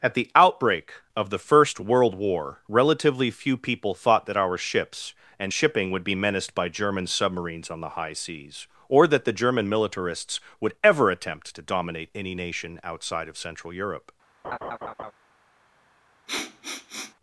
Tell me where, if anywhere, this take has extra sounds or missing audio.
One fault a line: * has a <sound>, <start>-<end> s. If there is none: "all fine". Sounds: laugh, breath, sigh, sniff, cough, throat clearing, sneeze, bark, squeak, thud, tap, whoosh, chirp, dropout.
* has a laugh, 14.4-15.1 s
* has a sniff, 16.3-17.1 s